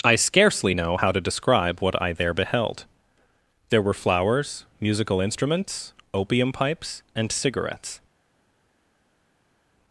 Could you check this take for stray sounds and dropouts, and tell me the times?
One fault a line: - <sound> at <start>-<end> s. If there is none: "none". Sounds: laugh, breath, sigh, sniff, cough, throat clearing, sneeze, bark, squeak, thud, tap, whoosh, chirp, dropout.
none